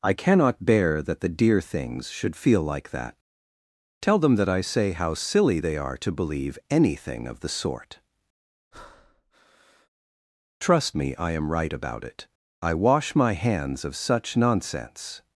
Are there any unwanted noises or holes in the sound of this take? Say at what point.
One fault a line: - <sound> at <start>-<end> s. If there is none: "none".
- breath at 8.7-9.9 s